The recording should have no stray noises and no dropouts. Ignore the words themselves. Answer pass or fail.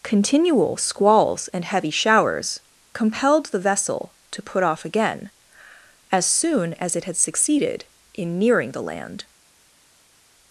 pass